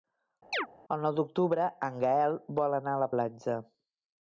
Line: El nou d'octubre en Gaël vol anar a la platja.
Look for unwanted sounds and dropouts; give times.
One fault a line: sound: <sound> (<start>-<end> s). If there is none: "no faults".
sound: chirp (0.5-0.7 s)